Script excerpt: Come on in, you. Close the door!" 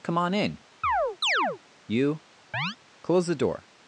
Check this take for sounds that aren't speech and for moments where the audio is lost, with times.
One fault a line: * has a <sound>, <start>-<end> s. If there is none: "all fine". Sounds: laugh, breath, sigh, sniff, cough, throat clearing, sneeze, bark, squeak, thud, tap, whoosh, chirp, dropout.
* has a chirp, 0.8-1.6 s
* has a chirp, 2.5-2.8 s